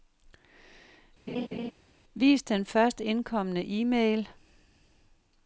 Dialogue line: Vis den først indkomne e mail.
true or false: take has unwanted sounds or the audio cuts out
true